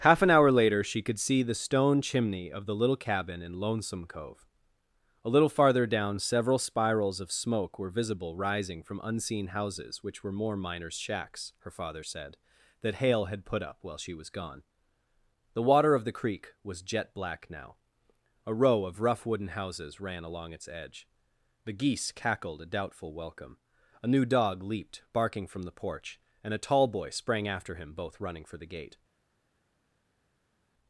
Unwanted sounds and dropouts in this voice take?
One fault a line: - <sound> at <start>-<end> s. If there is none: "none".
none